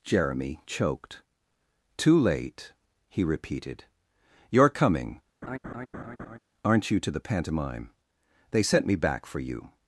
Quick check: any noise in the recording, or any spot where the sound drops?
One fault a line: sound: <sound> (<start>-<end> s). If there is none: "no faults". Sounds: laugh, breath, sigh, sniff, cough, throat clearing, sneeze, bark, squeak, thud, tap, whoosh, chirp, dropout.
sound: laugh (5.4-6.4 s)